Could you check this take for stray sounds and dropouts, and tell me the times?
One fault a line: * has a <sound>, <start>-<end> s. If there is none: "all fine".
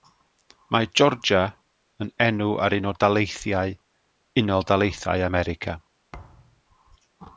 * has a thud, 6.1-6.6 s